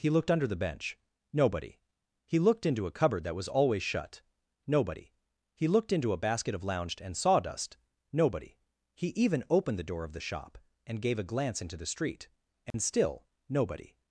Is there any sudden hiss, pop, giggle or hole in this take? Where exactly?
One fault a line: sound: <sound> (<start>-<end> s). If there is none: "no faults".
sound: dropout (12.7-12.7 s)